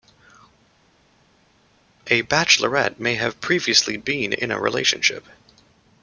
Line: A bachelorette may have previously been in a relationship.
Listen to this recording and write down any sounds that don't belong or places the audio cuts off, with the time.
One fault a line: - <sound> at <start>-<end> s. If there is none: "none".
none